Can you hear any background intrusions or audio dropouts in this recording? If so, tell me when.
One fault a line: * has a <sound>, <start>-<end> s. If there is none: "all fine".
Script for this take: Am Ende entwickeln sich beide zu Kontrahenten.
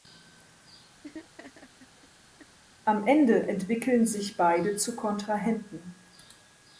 * has a laugh, 1.0-2.6 s